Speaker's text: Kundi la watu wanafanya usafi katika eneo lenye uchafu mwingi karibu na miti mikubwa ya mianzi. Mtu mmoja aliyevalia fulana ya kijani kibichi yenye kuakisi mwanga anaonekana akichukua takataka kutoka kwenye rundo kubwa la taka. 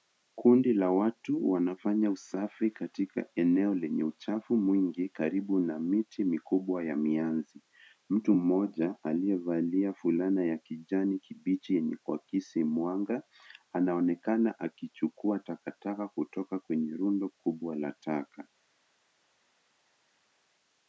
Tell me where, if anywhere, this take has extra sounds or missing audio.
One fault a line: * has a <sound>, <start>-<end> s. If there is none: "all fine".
all fine